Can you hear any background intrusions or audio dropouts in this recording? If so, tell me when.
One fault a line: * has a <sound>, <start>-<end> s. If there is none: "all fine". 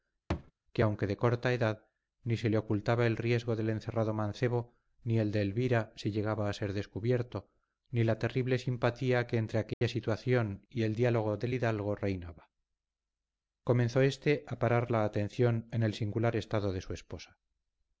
* has a thud, 0.3-0.5 s
* has a dropout, 9.7-9.8 s